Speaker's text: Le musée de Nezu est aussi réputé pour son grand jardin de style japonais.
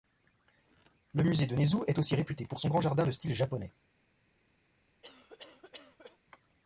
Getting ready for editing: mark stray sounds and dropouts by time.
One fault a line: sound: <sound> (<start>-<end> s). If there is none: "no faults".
sound: cough (5.0-6.2 s)